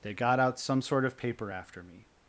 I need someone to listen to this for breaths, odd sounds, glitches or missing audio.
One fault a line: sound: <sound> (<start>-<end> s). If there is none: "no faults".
no faults